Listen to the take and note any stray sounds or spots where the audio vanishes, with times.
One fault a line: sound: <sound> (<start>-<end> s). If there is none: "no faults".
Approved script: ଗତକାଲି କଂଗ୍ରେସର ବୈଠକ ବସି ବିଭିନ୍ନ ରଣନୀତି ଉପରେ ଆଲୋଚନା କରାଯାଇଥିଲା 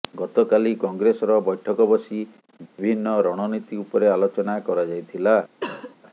sound: dropout (2.7-2.8 s)
sound: cough (5.6-6.0 s)